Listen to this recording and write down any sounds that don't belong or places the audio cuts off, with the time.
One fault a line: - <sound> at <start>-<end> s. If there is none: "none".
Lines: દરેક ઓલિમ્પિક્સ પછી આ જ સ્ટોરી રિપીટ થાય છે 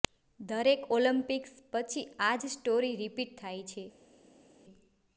none